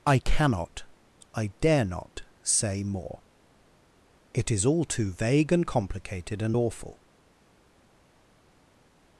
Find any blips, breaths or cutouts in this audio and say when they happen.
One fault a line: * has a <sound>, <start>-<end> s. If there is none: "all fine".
all fine